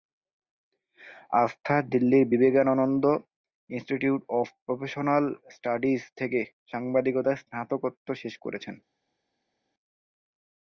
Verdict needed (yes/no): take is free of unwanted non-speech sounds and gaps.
yes